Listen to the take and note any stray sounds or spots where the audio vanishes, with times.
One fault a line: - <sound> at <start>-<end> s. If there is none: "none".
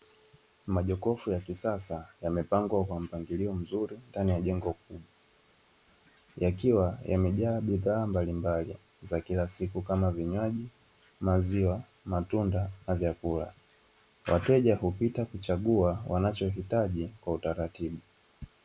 none